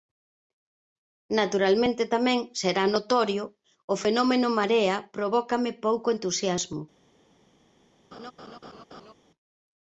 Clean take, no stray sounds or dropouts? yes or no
no